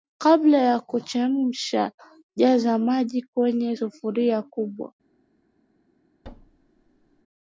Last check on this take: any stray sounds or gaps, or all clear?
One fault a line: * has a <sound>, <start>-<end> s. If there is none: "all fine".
* has a thud, 6.2-7.2 s